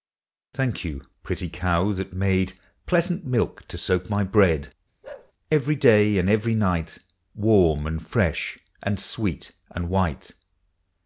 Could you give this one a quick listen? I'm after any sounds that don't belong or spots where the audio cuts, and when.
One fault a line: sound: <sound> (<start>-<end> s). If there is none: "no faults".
sound: bark (5.0-5.3 s)